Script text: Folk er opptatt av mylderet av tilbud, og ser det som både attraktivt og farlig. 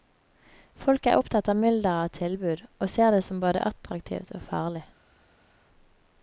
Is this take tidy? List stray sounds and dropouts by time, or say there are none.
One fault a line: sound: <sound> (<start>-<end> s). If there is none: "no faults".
no faults